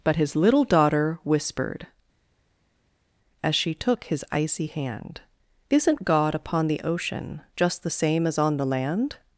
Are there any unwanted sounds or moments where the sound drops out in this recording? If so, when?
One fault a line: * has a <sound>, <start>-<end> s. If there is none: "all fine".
all fine